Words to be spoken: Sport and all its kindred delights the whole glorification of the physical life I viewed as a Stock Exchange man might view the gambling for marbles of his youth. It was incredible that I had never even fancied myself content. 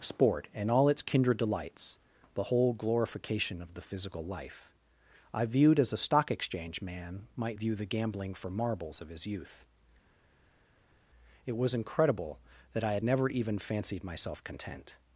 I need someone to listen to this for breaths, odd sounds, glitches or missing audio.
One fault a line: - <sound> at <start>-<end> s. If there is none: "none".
none